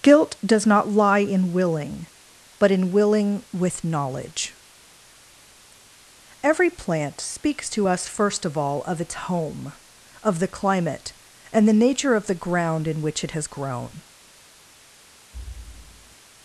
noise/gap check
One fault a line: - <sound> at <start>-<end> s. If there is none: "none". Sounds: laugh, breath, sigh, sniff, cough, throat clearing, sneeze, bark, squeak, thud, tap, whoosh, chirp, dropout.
- thud at 15.3-16.2 s